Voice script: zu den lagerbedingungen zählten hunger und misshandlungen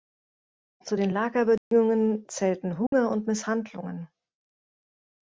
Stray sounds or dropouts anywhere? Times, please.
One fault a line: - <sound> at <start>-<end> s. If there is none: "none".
- dropout at 1.6-1.7 s
- dropout at 2.9-2.9 s